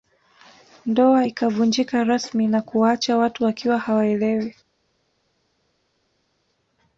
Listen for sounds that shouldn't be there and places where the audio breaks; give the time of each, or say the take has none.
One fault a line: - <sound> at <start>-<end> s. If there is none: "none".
none